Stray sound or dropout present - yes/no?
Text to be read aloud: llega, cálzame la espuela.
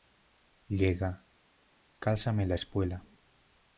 no